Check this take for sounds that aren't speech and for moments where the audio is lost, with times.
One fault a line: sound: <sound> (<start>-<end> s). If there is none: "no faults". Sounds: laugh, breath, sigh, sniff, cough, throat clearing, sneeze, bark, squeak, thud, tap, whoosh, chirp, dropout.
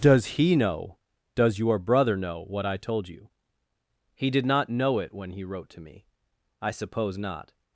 no faults